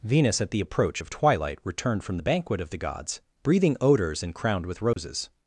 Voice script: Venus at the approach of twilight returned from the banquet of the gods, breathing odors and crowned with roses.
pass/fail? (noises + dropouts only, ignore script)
fail